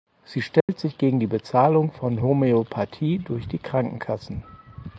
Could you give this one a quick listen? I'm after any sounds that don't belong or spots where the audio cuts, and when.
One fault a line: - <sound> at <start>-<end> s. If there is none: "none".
- dropout at 0.6-0.7 s